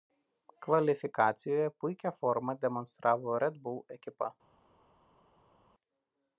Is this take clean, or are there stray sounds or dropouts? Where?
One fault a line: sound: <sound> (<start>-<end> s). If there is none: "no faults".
no faults